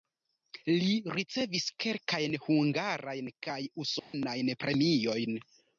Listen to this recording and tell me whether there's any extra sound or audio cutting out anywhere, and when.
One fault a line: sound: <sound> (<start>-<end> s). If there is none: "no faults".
sound: dropout (4.0-4.1 s)